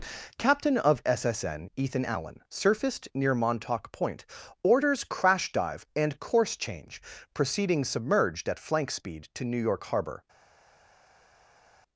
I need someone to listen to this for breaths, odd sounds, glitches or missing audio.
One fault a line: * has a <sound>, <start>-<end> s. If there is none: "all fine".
all fine